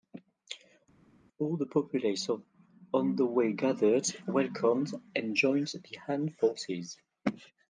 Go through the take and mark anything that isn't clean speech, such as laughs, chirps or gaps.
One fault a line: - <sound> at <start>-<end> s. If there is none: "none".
none